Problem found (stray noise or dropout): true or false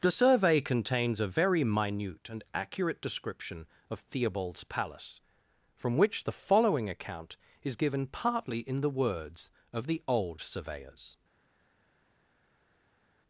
false